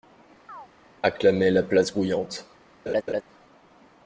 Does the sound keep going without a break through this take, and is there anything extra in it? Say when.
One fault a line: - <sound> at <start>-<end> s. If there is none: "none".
- chirp at 0.5-0.7 s
- laugh at 2.9-3.2 s